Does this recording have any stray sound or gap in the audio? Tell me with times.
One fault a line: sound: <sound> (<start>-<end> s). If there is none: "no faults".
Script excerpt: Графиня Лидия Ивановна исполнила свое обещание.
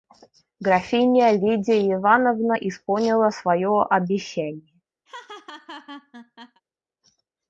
sound: laugh (5.1-6.6 s)